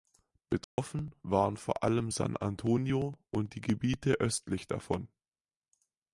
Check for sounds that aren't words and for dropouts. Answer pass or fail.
fail